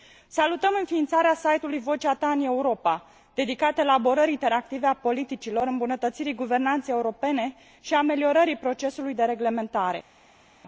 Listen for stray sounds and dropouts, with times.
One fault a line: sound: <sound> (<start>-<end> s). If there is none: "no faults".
no faults